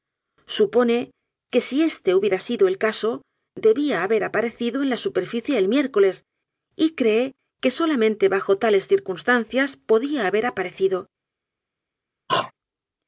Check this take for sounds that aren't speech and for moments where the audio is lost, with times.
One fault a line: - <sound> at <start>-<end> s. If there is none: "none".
- throat clearing at 12.3-12.5 s